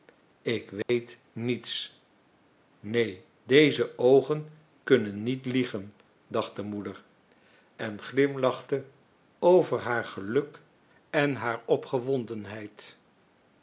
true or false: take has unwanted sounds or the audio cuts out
true